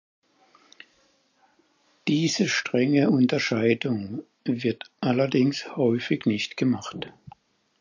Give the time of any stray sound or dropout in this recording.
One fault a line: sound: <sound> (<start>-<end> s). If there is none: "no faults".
no faults